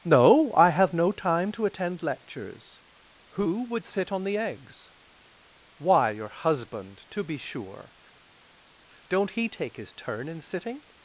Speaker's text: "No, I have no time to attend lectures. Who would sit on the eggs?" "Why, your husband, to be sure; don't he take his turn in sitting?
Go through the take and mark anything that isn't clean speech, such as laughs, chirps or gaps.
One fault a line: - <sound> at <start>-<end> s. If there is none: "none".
none